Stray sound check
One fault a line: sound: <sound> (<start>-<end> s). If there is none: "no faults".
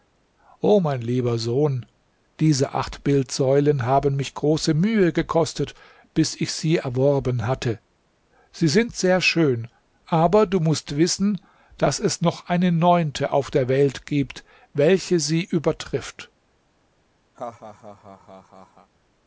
sound: laugh (17.4-18.9 s)